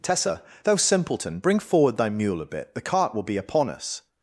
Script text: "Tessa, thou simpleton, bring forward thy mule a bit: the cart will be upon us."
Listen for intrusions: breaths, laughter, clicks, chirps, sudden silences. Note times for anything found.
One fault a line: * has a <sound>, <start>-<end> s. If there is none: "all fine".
all fine